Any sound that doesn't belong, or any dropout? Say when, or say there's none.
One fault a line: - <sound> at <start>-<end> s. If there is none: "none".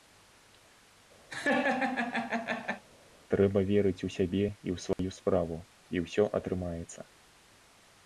- laugh at 1.3-2.8 s
- dropout at 4.9-5.0 s